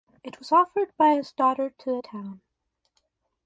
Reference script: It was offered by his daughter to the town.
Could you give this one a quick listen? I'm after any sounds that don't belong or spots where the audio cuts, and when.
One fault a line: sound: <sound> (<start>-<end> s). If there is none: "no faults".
no faults